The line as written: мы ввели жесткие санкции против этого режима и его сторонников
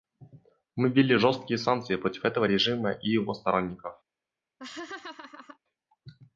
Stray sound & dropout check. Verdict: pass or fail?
fail